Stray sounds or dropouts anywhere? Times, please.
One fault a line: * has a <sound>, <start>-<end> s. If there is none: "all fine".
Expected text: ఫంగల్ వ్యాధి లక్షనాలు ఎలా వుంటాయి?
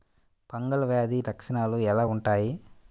all fine